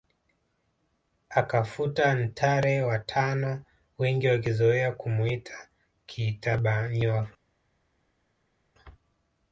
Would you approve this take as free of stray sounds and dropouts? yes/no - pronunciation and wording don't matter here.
yes